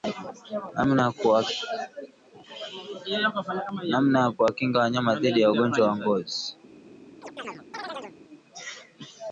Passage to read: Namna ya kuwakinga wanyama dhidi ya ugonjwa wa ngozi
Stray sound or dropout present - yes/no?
yes